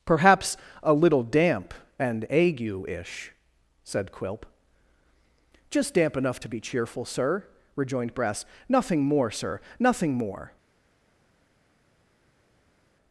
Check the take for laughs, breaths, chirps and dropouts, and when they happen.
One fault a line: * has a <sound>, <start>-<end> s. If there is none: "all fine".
all fine